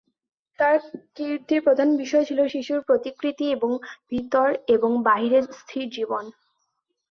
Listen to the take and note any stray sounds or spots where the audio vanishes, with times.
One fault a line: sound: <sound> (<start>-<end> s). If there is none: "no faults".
no faults